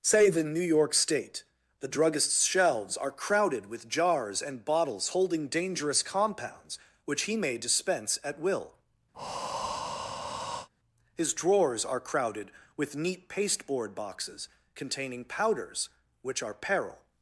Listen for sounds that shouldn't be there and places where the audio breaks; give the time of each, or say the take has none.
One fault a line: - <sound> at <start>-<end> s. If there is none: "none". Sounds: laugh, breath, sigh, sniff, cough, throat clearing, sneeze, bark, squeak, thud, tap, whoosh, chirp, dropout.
- breath at 9.1-10.7 s